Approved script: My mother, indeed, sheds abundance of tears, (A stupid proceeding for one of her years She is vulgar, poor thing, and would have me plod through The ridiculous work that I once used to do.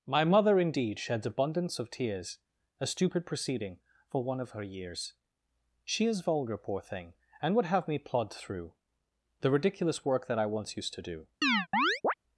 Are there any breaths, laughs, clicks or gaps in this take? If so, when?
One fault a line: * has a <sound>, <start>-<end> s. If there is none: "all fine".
* has a chirp, 11.4-12.1 s